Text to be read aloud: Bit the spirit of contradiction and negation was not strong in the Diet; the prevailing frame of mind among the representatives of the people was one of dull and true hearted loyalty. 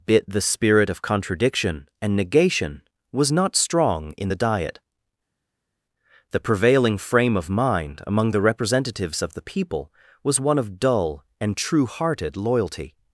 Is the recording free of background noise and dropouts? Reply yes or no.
yes